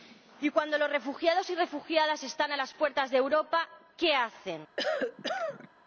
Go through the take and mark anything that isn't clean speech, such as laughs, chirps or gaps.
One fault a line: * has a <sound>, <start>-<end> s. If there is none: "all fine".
* has a cough, 4.8-5.7 s